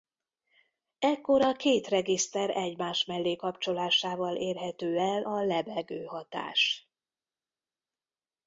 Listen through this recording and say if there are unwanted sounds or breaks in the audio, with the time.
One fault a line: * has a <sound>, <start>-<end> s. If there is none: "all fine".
all fine